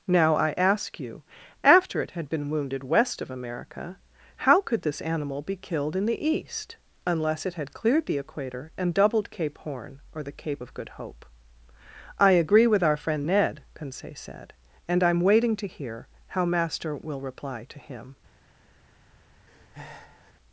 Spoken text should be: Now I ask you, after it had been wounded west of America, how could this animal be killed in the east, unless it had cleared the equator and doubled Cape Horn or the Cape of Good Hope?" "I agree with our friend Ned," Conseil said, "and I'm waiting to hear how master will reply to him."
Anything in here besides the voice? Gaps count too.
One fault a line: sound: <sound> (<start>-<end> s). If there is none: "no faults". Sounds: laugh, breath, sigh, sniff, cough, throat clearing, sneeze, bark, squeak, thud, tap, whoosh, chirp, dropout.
sound: breath (19.5-20.3 s)